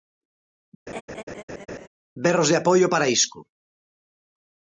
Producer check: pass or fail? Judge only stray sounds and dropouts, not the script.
fail